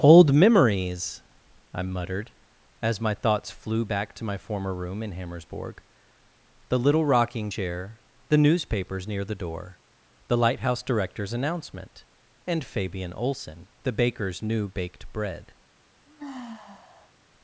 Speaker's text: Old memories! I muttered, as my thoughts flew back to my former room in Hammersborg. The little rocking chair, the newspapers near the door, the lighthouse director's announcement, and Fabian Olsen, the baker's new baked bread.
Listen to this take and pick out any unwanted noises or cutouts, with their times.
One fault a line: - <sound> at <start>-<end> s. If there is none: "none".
- sigh at 16.1-17.1 s